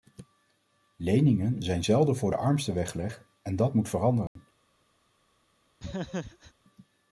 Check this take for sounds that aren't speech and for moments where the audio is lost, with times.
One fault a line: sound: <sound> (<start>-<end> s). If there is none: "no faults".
sound: dropout (4.3-4.4 s)
sound: laugh (5.8-6.5 s)